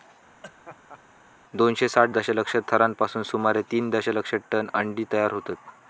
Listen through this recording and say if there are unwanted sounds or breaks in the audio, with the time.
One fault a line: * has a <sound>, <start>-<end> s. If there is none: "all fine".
* has a laugh, 0.4-1.0 s